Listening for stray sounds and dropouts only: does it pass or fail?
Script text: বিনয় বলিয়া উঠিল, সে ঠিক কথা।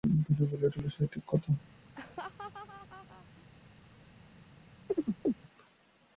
fail